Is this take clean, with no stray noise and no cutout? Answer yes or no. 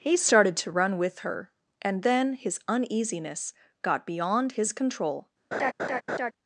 no